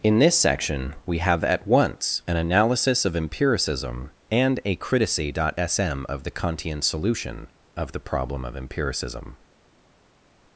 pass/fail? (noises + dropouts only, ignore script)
pass